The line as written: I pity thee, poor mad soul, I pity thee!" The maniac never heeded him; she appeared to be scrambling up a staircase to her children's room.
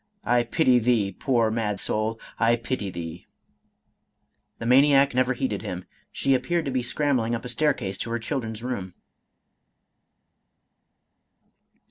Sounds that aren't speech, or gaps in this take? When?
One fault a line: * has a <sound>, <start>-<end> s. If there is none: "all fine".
all fine